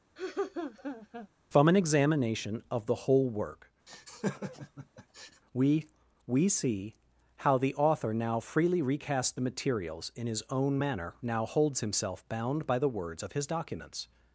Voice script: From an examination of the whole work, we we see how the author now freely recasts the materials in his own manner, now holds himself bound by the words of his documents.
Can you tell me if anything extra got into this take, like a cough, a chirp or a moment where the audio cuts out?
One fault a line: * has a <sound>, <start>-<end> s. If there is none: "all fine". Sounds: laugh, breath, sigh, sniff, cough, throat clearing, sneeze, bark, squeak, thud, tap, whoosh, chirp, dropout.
* has a laugh, 0.2-1.3 s
* has a laugh, 3.9-5.4 s